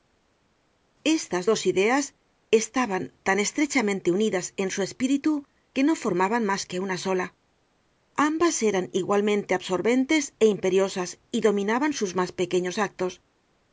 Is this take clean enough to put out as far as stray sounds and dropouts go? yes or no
yes